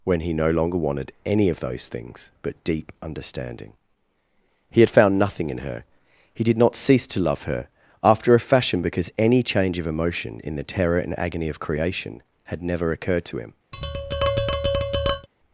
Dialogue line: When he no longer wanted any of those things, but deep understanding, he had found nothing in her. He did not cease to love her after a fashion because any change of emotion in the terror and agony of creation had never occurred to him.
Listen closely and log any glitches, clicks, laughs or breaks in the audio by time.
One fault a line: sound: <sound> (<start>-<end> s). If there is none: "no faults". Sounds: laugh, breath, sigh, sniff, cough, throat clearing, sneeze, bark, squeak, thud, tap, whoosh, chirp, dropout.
sound: tap (13.7-15.3 s)